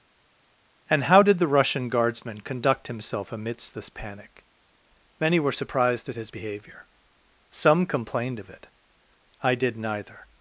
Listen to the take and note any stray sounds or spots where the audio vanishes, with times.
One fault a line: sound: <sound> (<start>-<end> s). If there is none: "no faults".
no faults